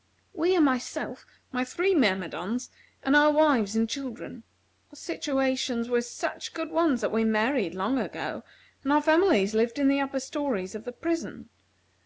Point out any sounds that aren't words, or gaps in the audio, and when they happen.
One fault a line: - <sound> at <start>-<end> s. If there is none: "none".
none